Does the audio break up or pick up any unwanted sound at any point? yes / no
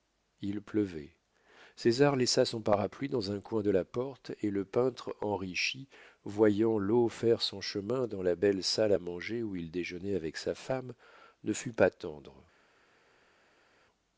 no